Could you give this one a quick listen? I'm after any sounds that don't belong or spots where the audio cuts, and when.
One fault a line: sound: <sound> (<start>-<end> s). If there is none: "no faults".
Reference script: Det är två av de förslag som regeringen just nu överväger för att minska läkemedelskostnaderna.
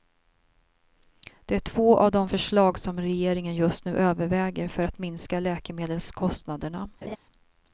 sound: laugh (7.0-7.2 s)